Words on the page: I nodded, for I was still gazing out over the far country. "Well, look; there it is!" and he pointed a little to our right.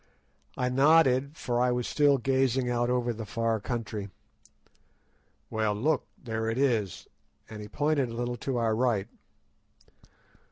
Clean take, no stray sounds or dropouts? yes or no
yes